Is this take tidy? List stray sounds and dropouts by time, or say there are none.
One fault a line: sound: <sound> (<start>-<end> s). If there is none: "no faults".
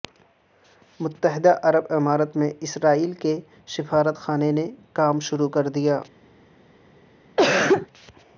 sound: cough (7.4-7.9 s)